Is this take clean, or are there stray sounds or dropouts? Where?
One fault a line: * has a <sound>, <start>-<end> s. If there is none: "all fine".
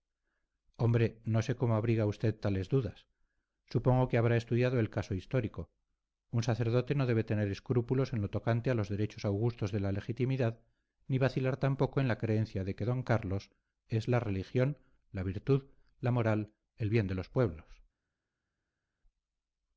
all fine